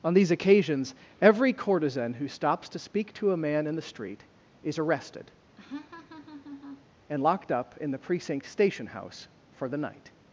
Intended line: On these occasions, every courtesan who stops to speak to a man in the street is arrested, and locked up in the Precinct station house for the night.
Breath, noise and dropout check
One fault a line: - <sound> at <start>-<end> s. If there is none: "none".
- laugh at 5.6-6.8 s